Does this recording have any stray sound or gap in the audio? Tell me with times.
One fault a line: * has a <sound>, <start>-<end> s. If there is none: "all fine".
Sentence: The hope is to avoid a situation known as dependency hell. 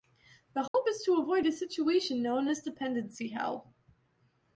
* has a dropout, 0.7-0.7 s